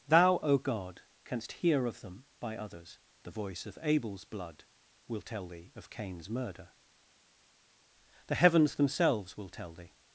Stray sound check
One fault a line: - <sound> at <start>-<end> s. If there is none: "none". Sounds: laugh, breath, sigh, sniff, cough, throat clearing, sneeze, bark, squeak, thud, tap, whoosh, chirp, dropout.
none